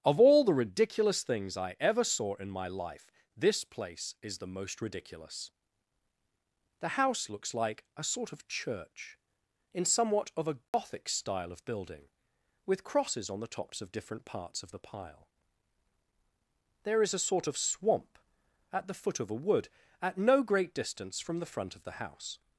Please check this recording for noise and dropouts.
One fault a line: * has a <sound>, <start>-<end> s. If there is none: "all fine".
* has a dropout, 10.7-10.7 s